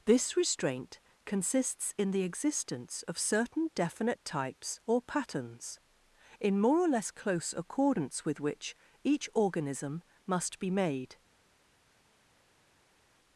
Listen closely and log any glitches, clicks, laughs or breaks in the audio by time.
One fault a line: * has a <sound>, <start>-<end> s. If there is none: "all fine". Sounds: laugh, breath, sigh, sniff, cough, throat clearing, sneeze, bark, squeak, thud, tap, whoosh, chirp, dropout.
all fine